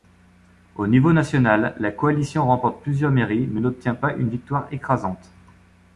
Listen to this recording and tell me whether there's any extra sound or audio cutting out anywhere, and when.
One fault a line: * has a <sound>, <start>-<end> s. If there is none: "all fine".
all fine